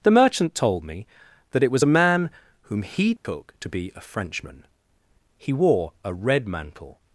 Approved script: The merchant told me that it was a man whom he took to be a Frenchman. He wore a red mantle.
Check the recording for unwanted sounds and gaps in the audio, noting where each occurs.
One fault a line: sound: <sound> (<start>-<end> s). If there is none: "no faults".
sound: dropout (3.2-3.2 s)